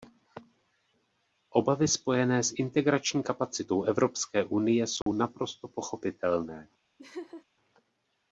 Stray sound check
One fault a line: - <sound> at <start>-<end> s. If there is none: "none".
- dropout at 5.0-5.1 s
- laugh at 7.0-7.4 s